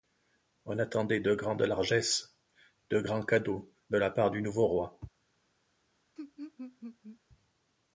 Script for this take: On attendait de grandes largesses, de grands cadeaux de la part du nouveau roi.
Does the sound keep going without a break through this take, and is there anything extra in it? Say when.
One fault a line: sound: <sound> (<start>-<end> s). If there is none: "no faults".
sound: laugh (6.2-7.2 s)